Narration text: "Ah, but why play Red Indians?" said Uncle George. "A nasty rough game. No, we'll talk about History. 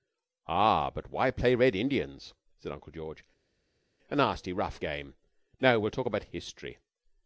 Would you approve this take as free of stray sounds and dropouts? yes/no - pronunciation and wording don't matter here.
yes